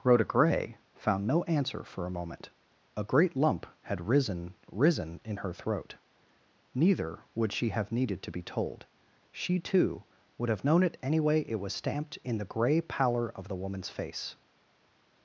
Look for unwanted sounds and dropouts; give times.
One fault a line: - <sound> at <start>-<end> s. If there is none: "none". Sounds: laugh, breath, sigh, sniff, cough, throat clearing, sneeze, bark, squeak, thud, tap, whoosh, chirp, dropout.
none